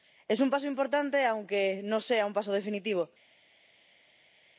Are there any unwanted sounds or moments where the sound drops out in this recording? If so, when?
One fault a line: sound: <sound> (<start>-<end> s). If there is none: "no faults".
no faults